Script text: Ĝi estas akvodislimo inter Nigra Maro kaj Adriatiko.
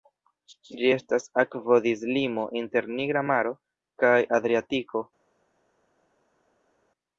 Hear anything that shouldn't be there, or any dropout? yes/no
no